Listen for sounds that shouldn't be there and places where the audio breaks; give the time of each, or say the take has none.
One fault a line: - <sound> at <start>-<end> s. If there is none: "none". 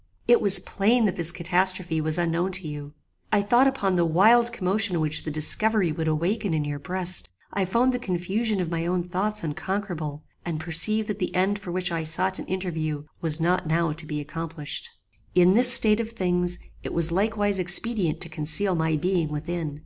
none